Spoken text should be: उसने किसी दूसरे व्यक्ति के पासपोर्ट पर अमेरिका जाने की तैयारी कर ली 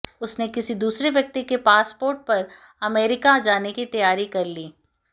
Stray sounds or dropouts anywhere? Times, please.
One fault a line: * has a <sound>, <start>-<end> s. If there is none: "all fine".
all fine